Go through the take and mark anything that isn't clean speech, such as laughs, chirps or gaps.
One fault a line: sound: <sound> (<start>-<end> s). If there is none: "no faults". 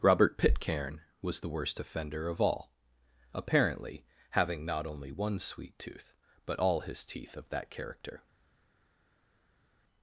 no faults